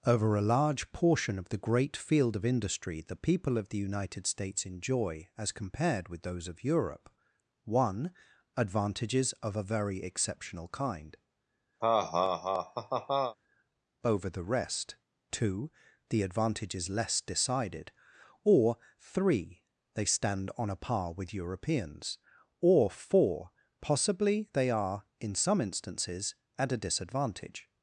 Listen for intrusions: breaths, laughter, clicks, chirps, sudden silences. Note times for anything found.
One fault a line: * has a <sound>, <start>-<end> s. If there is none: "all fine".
* has a laugh, 11.8-13.4 s